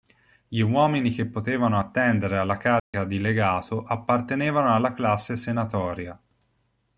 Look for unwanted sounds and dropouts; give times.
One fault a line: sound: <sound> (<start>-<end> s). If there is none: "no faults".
sound: dropout (2.8-2.9 s)